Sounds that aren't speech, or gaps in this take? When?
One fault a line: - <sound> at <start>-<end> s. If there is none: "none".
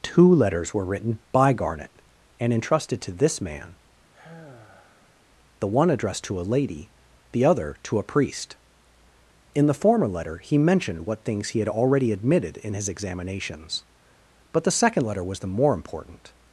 - sigh at 4.1-5.3 s